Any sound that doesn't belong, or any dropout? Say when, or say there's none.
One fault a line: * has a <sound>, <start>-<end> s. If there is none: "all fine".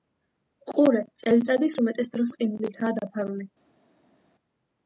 all fine